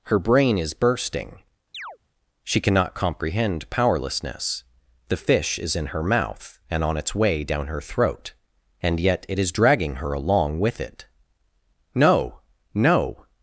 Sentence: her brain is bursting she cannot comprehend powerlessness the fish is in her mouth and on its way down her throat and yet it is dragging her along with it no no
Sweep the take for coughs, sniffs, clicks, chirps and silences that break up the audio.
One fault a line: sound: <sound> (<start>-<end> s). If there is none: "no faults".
sound: chirp (1.7-2.0 s)